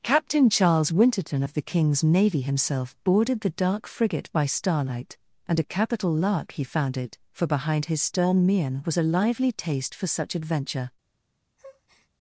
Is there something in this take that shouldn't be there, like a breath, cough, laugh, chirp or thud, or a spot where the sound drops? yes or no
yes